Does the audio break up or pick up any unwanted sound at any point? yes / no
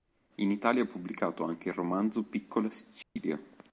yes